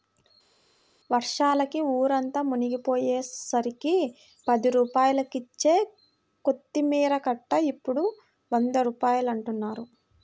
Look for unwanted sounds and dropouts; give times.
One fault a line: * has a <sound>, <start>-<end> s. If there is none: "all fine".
all fine